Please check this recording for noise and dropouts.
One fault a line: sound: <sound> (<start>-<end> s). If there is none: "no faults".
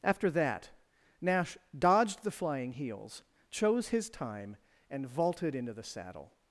no faults